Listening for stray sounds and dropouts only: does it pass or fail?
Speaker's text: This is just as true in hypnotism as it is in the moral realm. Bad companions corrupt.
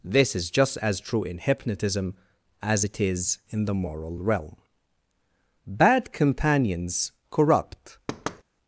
fail